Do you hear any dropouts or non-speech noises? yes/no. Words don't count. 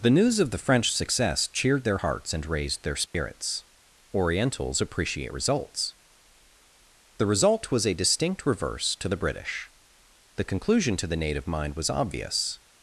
yes